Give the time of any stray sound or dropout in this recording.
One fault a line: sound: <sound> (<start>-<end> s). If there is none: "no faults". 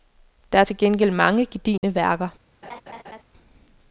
sound: dropout (1.8-1.8 s)
sound: laugh (2.6-3.2 s)